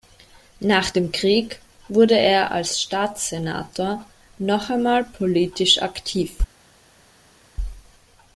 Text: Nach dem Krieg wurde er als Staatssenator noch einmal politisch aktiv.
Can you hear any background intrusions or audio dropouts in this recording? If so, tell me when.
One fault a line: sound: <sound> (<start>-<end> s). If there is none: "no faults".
no faults